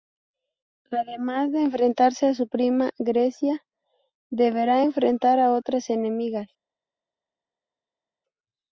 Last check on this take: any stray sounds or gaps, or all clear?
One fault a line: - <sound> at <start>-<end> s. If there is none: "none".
none